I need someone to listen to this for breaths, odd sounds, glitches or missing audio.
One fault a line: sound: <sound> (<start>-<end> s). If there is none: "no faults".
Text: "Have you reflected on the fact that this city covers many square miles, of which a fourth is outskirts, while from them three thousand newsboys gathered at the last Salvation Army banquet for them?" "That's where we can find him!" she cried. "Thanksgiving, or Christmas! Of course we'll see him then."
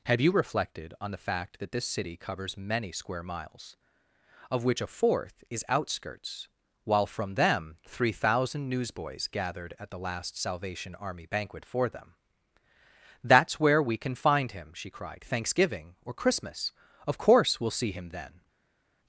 no faults